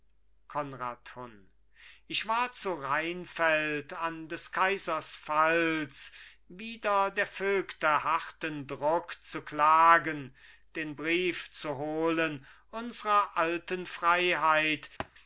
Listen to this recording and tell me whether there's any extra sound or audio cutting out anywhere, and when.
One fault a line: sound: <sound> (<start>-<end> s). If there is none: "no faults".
sound: thud (15.0-15.1 s)